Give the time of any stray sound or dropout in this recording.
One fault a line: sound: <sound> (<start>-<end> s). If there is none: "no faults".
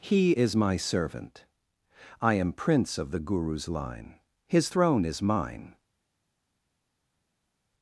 no faults